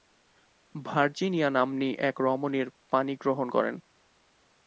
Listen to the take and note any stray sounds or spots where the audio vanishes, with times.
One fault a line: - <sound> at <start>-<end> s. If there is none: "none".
none